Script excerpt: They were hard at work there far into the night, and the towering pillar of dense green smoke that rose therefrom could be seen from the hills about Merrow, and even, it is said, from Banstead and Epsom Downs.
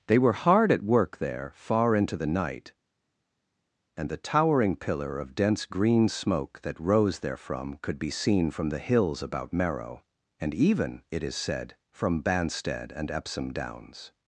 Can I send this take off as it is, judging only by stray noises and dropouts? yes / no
yes